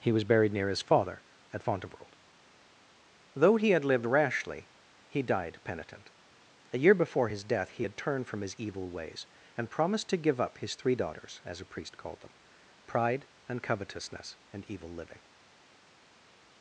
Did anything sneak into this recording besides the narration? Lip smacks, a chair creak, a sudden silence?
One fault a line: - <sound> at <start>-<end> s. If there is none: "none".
none